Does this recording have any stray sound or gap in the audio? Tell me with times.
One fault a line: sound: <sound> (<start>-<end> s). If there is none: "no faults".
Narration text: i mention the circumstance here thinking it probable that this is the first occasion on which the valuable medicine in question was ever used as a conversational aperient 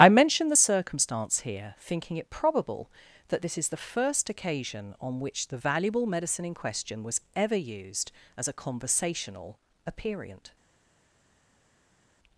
no faults